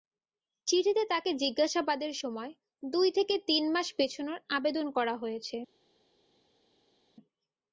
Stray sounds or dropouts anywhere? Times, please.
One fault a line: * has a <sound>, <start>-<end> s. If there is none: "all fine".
all fine